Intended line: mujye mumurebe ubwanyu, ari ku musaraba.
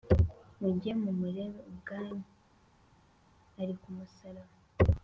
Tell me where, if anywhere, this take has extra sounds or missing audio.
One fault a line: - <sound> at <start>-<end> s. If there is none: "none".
none